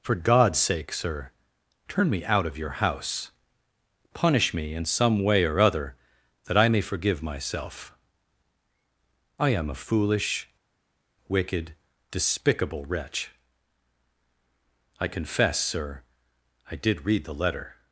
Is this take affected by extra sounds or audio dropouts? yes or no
no